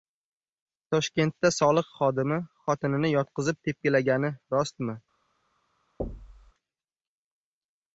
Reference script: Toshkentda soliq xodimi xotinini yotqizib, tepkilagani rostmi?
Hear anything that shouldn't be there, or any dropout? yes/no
yes